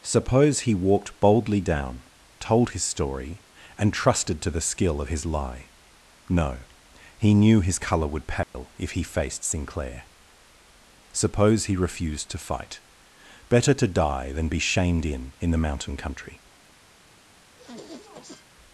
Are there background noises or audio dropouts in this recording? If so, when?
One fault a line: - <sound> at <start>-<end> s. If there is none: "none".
- dropout at 8.4-8.5 s
- sniff at 17.6-18.4 s